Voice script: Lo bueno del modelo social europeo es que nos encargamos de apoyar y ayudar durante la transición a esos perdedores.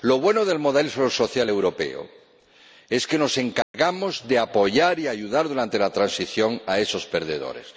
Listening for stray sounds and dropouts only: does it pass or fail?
fail